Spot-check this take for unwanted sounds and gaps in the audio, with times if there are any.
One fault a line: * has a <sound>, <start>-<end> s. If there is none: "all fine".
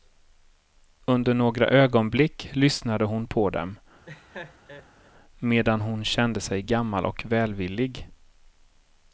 * has a laugh, 4.0-5.1 s